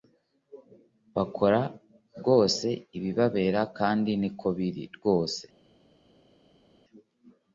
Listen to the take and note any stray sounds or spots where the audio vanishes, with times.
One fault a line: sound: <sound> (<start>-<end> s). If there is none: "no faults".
no faults